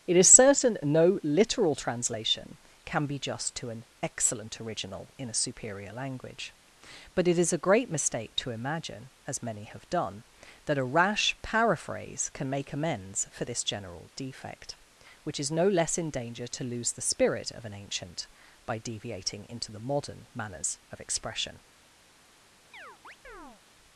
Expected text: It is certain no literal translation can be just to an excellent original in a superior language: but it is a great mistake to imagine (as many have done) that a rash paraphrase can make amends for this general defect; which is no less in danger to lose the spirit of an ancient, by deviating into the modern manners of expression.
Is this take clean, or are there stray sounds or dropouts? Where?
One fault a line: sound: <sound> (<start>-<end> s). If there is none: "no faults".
sound: chirp (22.7-23.6 s)